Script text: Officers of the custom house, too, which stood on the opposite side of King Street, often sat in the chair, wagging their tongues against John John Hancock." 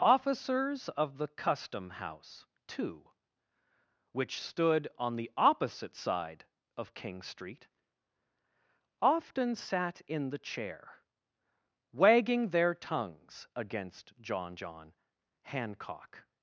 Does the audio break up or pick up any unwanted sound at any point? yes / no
no